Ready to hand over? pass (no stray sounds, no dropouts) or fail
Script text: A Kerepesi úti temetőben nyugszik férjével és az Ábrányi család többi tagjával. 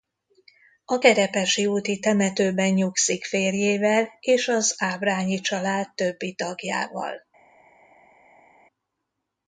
pass